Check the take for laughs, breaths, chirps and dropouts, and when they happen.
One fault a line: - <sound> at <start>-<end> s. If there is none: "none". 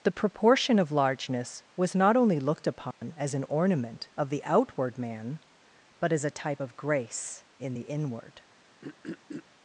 - dropout at 2.9-3.0 s
- throat clearing at 8.8-9.4 s